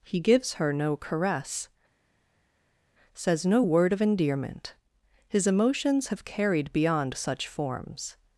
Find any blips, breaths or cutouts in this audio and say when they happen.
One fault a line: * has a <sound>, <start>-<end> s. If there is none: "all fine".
all fine